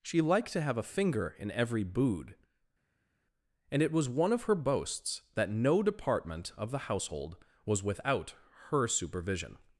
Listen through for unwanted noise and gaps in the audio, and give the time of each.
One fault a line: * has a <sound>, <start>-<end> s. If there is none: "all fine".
all fine